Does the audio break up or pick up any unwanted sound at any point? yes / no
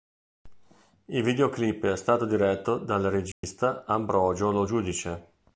yes